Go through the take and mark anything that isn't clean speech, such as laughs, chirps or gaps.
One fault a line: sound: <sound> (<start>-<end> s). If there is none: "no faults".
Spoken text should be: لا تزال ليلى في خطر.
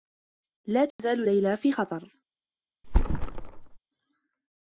sound: dropout (0.9-1.0 s)
sound: thud (2.8-3.8 s)